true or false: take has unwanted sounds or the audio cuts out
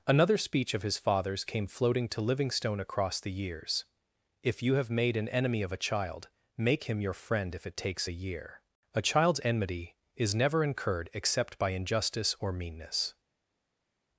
false